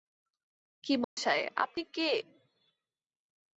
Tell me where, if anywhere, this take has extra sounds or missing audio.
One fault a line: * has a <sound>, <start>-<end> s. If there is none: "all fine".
* has a dropout, 1.0-1.2 s